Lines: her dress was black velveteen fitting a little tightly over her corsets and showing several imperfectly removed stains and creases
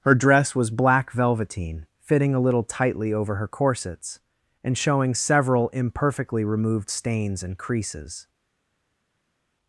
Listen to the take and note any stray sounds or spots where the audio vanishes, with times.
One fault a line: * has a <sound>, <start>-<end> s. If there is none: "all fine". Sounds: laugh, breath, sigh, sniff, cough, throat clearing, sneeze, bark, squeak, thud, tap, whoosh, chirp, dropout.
all fine